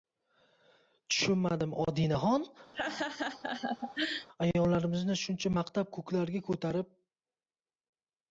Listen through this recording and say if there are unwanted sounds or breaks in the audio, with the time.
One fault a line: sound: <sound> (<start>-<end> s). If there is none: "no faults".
sound: laugh (2.7-4.3 s)